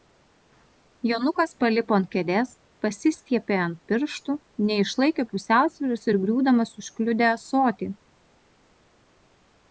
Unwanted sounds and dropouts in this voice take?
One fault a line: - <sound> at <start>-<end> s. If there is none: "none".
none